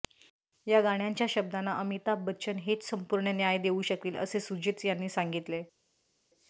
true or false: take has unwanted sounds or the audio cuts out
false